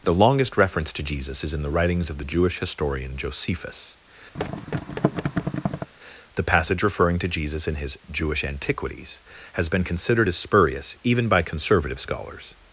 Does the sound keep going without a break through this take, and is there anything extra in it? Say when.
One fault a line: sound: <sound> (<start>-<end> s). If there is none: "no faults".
sound: thud (4.3-5.9 s)